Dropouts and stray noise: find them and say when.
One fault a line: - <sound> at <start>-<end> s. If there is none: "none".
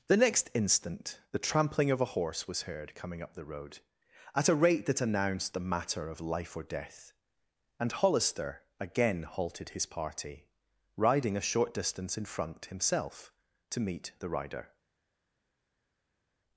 none